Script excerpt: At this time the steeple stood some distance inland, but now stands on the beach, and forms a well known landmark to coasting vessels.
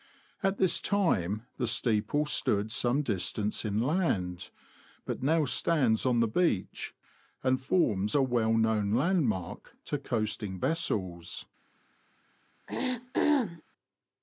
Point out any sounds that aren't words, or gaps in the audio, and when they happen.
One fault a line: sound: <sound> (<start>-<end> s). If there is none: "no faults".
sound: throat clearing (12.7-13.6 s)